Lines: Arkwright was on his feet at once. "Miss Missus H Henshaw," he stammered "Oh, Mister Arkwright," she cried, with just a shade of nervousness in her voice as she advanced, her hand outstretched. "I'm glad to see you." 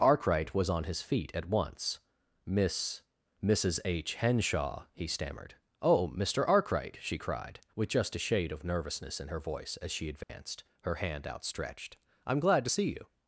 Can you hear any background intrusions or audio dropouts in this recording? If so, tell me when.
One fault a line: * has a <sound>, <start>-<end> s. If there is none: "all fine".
* has a dropout, 10.2-10.3 s